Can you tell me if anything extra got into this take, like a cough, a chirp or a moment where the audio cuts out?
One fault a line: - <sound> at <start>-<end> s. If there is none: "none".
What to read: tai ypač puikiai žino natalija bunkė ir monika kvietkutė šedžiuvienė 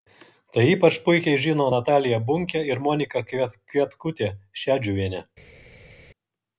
none